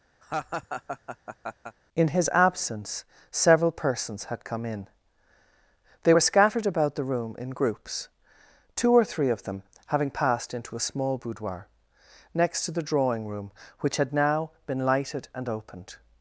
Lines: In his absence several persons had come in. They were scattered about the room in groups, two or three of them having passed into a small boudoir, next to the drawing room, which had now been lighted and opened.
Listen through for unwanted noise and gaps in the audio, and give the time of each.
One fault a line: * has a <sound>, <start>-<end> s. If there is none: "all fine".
* has a laugh, 0.2-1.8 s